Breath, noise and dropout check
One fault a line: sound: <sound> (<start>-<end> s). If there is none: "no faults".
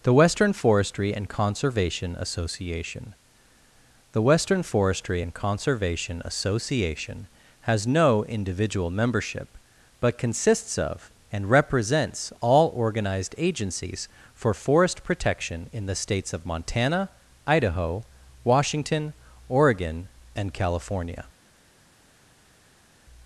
no faults